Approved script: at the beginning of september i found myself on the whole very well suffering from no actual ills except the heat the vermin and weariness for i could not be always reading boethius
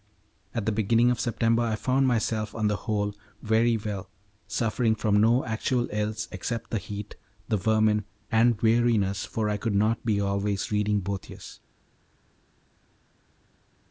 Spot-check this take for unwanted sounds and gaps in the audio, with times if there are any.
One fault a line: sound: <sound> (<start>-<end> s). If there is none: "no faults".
no faults